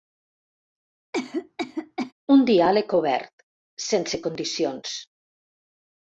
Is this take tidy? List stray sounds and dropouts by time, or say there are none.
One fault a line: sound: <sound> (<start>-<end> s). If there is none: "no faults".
sound: cough (1.1-2.1 s)